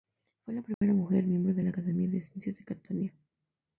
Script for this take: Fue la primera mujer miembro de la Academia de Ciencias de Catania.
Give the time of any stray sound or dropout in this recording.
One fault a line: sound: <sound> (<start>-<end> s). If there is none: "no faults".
sound: dropout (0.7-0.8 s)